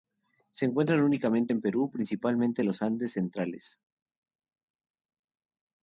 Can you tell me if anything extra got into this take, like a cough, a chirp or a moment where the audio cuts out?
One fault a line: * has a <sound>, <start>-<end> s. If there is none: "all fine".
all fine